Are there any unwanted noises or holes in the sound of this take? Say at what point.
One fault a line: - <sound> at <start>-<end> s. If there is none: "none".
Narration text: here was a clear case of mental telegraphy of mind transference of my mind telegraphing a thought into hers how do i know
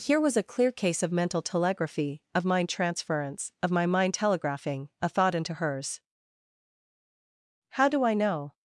none